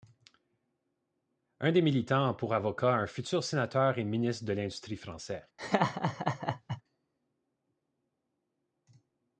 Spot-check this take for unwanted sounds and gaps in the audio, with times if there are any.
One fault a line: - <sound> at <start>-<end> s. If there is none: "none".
- laugh at 5.6-6.8 s